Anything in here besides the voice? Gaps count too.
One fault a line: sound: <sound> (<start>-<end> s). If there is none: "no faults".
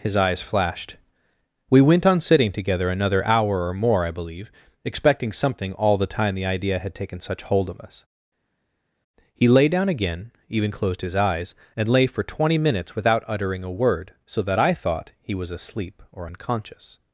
no faults